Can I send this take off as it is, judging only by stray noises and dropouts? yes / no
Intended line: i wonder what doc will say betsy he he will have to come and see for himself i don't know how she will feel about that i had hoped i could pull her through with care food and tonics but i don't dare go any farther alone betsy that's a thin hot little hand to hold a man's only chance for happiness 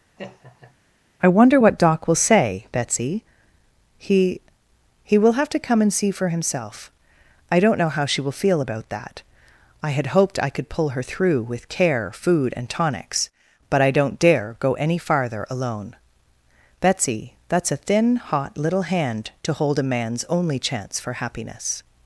no